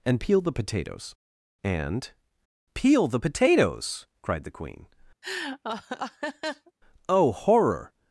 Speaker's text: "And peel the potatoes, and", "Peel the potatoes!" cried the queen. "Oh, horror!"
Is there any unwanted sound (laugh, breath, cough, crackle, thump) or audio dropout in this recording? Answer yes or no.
yes